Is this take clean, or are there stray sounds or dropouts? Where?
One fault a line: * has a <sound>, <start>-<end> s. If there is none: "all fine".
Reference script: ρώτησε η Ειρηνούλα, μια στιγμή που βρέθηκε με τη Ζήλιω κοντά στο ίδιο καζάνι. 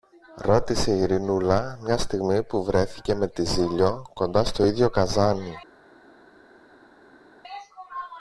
all fine